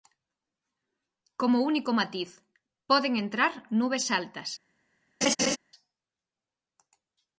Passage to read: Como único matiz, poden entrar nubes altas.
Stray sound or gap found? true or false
true